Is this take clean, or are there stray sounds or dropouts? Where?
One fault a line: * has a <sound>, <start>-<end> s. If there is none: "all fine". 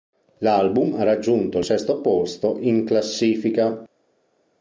all fine